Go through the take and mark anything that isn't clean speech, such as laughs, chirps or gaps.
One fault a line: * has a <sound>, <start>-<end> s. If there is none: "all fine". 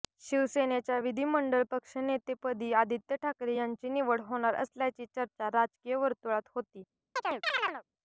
* has a chirp, 7.2-7.8 s